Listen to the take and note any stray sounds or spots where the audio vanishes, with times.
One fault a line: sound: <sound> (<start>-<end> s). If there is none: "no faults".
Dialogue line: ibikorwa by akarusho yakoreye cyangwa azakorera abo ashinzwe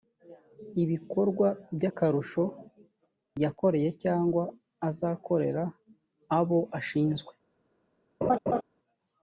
sound: laugh (8.2-8.6 s)